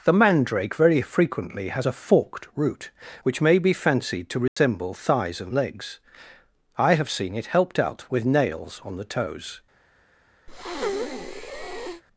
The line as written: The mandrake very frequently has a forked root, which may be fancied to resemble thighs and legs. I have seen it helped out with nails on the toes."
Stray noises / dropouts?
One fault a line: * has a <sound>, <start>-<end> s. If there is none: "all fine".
* has a dropout, 4.5-4.6 s
* has a breath, 10.5-12.0 s